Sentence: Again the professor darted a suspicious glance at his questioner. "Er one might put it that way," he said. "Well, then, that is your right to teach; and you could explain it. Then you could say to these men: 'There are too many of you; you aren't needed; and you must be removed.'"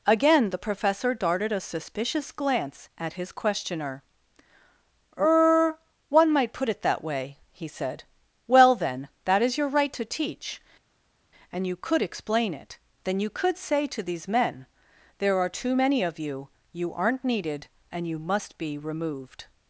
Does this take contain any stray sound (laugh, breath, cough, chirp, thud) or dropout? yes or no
no